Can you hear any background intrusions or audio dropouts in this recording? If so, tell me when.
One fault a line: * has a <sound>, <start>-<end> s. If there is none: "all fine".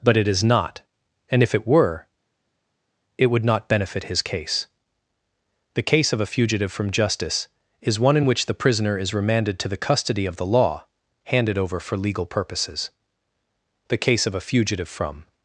all fine